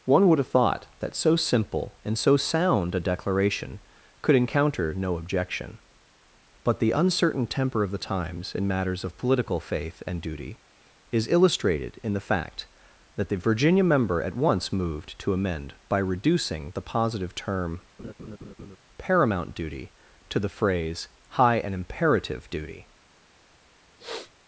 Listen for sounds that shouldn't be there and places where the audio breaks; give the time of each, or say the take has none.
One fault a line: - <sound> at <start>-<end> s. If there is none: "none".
- laugh at 18.0-18.8 s
- sniff at 24.0-24.3 s